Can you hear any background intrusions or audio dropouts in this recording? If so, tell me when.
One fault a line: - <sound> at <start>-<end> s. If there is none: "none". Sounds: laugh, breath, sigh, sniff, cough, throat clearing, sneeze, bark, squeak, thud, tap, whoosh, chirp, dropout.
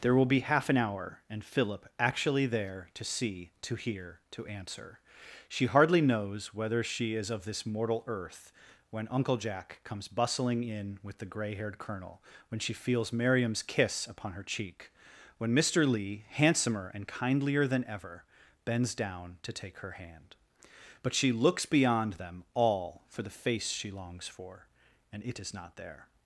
none